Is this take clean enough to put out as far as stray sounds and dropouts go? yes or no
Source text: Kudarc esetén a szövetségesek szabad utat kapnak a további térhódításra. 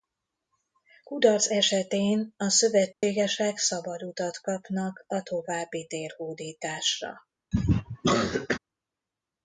no